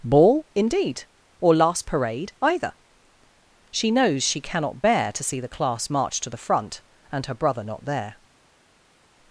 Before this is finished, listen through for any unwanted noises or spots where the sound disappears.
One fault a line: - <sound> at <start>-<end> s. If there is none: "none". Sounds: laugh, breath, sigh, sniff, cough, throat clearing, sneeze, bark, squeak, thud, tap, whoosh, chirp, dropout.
none